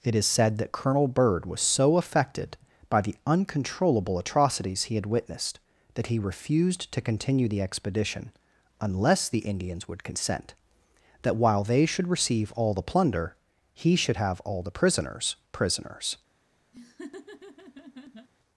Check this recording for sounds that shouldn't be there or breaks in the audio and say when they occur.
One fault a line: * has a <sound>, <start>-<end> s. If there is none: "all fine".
* has a laugh, 16.7-18.3 s